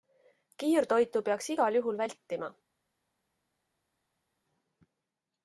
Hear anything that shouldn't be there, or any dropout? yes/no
no